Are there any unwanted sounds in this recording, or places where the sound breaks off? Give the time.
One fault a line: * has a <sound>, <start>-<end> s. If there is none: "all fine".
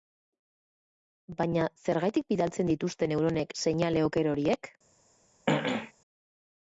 * has a throat clearing, 5.5-5.9 s